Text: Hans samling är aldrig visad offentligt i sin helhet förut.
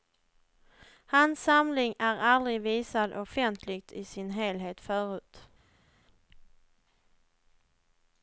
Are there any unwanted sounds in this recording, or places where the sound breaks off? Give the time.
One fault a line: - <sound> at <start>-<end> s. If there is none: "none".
none